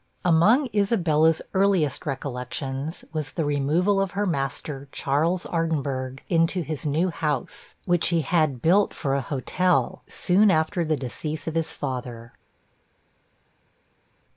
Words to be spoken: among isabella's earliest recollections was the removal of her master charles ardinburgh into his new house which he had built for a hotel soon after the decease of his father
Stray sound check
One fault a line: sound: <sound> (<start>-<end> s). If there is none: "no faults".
no faults